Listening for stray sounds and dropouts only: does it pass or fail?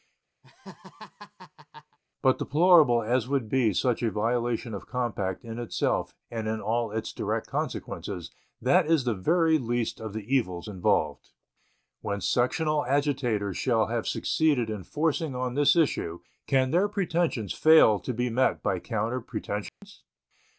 fail